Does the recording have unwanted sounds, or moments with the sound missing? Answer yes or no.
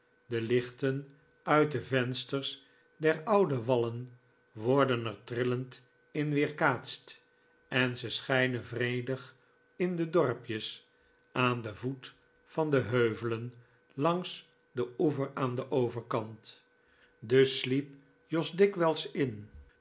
no